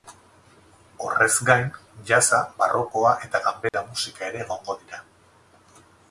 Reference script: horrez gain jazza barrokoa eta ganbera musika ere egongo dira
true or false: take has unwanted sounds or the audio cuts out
true